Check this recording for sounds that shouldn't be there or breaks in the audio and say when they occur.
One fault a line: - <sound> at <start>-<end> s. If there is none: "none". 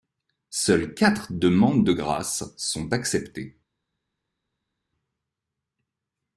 none